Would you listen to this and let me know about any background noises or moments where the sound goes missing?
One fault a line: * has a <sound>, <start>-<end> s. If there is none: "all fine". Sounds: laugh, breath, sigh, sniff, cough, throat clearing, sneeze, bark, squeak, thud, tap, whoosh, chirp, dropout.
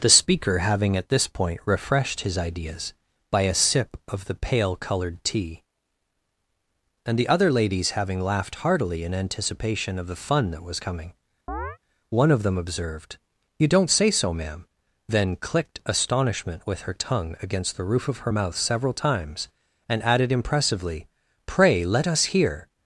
* has a chirp, 11.5-11.8 s